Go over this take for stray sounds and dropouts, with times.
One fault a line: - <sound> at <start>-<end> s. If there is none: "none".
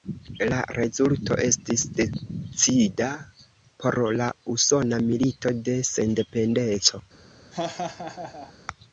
- laugh at 7.5-8.5 s